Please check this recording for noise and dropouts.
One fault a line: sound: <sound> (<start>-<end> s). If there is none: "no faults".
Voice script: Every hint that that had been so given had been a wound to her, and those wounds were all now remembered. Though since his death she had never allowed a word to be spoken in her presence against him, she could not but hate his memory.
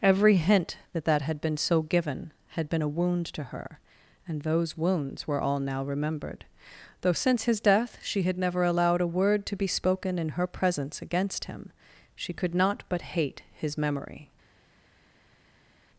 no faults